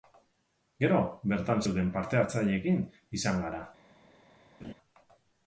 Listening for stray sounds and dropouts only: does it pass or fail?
fail